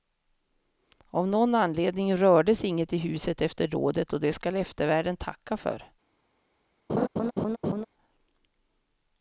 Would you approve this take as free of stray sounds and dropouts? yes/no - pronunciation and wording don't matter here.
no